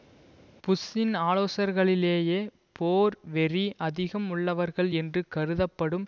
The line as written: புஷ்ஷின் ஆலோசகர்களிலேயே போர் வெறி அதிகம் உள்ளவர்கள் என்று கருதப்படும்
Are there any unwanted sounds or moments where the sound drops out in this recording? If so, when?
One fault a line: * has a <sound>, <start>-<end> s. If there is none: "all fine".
all fine